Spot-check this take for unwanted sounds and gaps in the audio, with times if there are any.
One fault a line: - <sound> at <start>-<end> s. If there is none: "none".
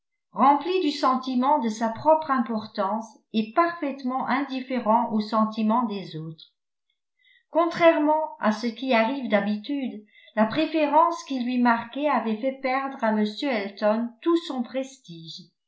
none